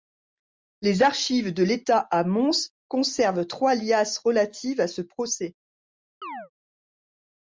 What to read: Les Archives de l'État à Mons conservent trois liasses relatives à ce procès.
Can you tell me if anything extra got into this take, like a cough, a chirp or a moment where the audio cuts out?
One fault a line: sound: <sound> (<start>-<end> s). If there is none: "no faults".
sound: chirp (6.2-6.5 s)